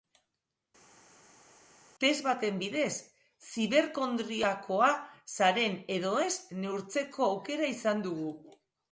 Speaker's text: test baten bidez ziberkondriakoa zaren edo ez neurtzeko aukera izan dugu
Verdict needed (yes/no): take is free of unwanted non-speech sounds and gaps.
yes